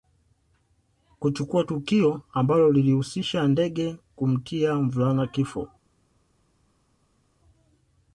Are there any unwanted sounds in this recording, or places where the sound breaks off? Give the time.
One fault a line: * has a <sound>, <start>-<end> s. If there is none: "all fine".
all fine